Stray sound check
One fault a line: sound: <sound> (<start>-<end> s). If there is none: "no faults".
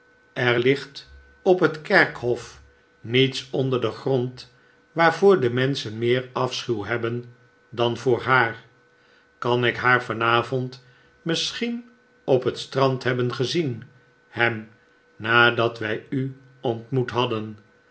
no faults